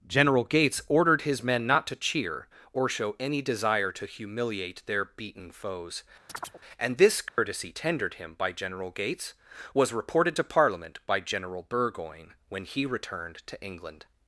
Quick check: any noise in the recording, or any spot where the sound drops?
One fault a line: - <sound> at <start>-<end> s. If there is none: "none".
- chirp at 6.3-6.6 s
- dropout at 7.3-7.4 s